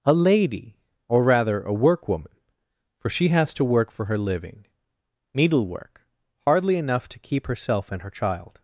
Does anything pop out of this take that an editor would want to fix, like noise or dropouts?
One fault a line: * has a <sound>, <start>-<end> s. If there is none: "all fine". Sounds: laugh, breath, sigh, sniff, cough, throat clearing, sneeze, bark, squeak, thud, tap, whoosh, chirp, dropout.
all fine